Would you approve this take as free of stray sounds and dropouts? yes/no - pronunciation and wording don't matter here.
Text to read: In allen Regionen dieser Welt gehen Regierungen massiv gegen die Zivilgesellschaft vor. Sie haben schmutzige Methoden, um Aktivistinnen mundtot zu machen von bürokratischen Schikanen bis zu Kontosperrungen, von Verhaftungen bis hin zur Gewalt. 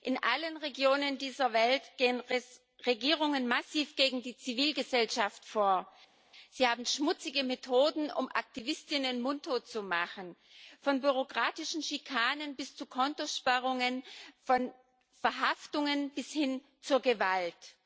yes